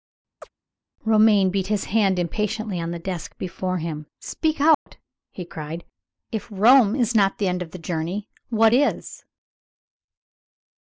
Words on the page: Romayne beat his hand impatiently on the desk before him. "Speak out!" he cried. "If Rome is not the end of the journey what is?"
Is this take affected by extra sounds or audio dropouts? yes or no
yes